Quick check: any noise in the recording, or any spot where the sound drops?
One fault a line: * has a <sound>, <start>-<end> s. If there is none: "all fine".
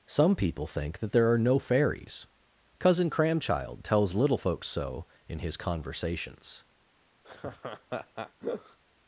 * has a laugh, 7.2-8.8 s